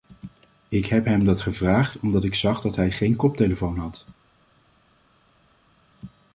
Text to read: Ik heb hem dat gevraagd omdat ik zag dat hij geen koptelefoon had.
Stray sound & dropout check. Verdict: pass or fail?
pass